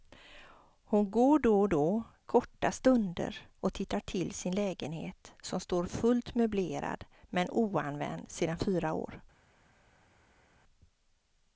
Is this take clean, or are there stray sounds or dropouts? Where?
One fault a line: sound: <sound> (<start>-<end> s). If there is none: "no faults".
no faults